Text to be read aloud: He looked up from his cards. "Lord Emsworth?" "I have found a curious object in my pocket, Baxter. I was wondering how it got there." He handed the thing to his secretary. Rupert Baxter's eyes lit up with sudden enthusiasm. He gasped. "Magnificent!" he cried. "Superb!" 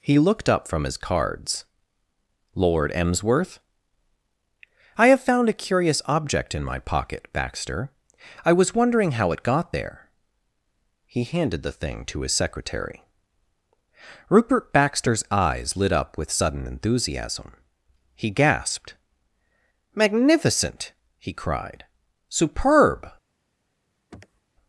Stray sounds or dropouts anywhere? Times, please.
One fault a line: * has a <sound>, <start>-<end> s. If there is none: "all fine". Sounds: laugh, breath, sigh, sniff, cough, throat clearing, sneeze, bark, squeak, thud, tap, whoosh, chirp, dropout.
* has a sniff, 24.1-24.4 s